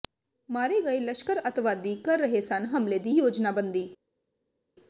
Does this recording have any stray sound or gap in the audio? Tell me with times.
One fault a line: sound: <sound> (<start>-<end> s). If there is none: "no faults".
no faults